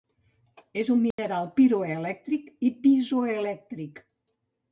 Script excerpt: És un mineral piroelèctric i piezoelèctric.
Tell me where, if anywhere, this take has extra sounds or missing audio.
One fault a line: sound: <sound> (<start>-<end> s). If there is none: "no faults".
sound: dropout (1.1-1.2 s)